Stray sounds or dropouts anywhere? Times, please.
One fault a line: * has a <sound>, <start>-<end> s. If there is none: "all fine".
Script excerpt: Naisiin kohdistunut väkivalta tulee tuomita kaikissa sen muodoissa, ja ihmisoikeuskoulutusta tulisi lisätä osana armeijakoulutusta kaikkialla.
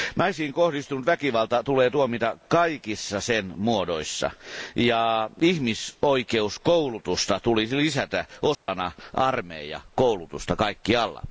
* has a dropout, 8.5-8.7 s